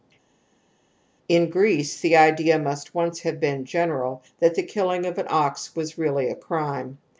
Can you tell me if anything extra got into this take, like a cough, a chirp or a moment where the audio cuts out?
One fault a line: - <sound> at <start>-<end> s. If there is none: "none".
none